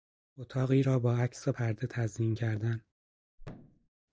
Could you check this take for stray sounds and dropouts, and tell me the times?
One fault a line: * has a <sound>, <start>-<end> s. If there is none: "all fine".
* has a thud, 3.4-3.9 s